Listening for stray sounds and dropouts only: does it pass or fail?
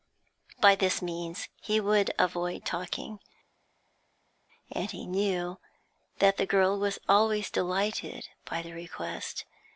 pass